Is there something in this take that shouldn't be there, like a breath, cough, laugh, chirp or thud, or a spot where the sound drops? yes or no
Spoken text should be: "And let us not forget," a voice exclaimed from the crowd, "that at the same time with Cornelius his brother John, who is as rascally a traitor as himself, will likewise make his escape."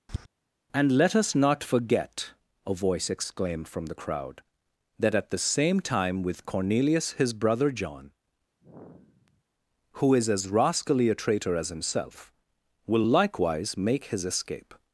yes